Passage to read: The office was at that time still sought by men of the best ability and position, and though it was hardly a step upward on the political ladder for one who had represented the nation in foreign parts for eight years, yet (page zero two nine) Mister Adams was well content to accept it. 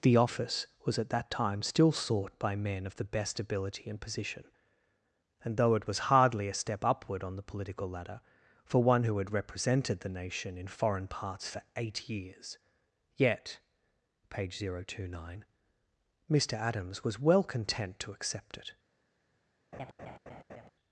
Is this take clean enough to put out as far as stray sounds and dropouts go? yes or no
no